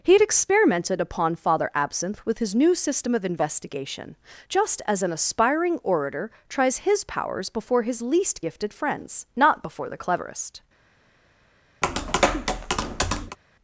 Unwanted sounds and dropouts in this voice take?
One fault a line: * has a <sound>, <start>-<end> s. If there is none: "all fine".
* has a tap, 11.8-13.4 s